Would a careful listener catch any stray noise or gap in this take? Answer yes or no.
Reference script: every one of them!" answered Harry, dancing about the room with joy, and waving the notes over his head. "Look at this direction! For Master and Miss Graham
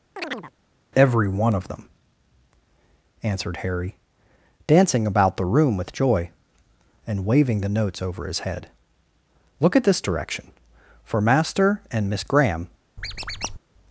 yes